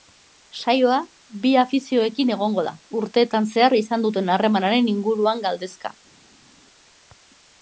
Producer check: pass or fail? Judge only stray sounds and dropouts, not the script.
pass